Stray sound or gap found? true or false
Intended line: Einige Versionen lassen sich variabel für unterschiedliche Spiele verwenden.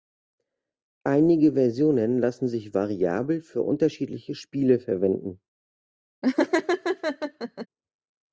true